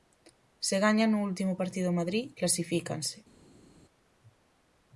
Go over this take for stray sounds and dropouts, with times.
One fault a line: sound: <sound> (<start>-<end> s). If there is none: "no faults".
no faults